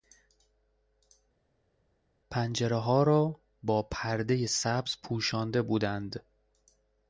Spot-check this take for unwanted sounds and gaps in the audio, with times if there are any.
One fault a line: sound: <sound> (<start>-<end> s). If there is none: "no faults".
no faults